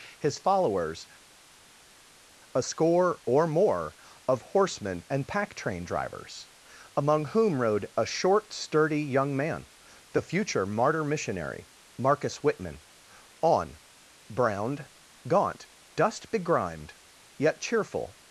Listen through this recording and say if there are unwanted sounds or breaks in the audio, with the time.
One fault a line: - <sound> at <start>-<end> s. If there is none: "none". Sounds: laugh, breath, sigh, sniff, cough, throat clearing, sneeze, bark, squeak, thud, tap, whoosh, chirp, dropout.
none